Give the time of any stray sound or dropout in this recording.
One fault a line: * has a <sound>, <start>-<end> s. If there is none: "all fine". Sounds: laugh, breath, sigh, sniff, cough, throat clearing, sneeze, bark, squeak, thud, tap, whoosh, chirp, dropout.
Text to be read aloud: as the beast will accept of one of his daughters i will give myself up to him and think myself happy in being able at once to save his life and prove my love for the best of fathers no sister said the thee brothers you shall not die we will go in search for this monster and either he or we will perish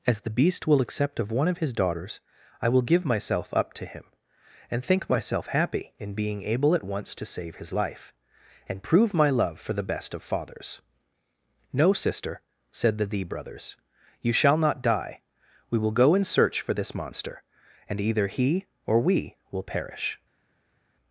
all fine